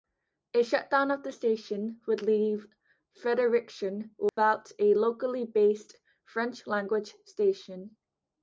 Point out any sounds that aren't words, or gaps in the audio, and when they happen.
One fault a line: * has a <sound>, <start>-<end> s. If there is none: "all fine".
* has a dropout, 4.3-4.4 s